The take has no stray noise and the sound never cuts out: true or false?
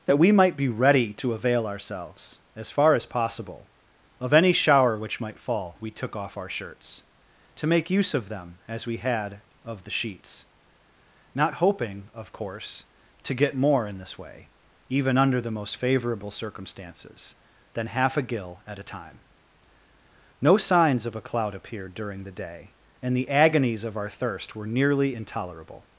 true